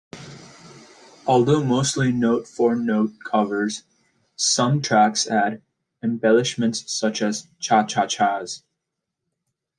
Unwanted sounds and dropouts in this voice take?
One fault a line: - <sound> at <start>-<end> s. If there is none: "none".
none